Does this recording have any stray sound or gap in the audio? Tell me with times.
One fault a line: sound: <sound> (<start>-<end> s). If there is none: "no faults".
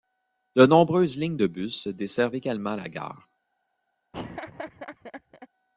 sound: laugh (4.1-5.5 s)